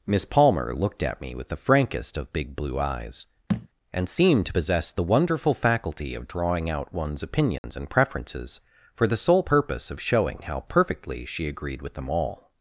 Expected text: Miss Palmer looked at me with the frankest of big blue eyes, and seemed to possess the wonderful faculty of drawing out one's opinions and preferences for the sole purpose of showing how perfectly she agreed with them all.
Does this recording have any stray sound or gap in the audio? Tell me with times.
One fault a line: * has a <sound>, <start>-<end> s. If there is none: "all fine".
* has a thud, 3.5-3.7 s
* has a dropout, 7.6-7.6 s